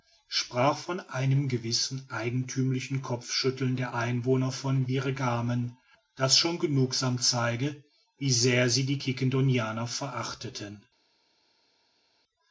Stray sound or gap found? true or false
false